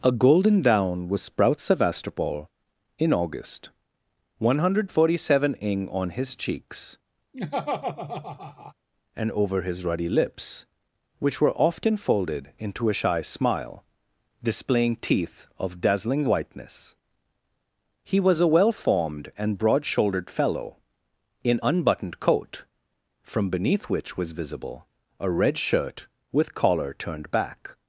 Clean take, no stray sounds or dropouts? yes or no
no